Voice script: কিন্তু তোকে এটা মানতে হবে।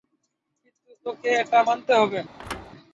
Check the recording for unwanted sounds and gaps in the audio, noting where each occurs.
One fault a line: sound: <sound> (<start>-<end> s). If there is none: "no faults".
sound: thud (2.4-2.7 s)